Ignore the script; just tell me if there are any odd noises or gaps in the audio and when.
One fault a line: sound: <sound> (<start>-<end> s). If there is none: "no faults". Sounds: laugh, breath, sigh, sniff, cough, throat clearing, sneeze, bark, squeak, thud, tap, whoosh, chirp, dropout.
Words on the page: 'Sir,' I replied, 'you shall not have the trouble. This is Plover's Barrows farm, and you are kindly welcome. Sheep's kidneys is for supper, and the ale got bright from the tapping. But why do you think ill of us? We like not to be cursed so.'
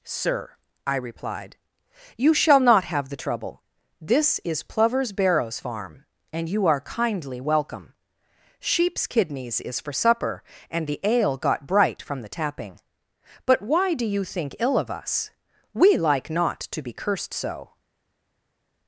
no faults